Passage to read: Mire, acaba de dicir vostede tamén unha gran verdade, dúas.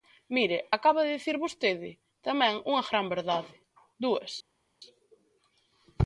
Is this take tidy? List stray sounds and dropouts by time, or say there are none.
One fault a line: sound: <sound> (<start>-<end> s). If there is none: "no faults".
no faults